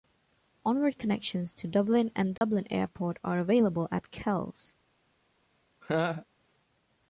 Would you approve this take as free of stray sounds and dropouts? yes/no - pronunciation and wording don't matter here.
no